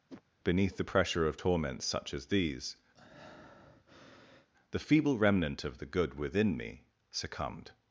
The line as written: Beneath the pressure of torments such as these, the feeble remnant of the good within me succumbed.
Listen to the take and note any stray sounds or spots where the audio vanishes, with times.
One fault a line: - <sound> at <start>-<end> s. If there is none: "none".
- whoosh at 0.1-0.2 s
- breath at 3.0-4.5 s